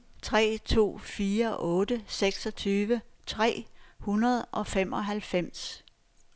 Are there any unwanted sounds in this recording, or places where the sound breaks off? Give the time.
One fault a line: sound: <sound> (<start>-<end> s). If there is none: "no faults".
no faults